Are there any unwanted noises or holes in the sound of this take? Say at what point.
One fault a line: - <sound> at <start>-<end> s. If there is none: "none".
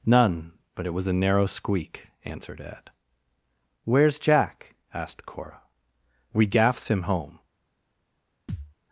- thud at 8.5-8.7 s